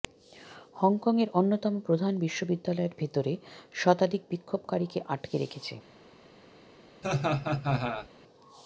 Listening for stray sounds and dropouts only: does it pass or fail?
fail